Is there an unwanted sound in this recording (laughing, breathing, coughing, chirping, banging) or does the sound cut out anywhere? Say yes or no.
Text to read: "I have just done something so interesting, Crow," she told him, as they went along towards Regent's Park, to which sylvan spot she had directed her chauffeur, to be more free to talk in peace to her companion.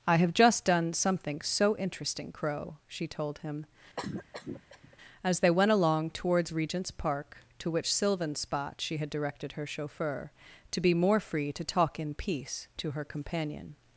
yes